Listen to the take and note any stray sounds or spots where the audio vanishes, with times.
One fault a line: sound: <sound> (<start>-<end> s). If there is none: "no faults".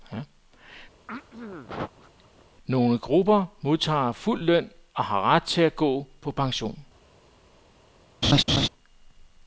sound: throat clearing (1.1-2.5 s)
sound: laugh (8.2-8.7 s)